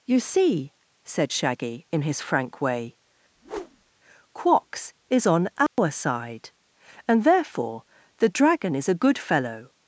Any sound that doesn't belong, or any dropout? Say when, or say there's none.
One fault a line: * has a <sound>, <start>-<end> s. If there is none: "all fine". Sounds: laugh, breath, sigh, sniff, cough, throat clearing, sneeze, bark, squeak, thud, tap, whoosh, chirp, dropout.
* has a whoosh, 3.3-3.9 s
* has a dropout, 5.7-5.8 s